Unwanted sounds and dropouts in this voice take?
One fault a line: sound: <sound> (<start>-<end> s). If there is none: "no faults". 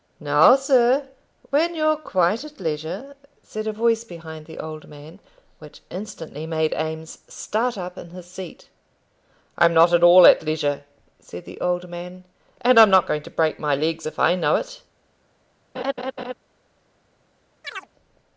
sound: laugh (15.7-16.3 s)
sound: chirp (17.6-17.9 s)